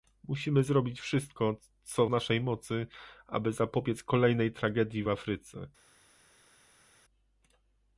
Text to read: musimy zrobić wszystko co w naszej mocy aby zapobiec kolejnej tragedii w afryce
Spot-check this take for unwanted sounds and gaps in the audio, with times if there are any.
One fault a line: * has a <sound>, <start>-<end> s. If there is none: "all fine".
all fine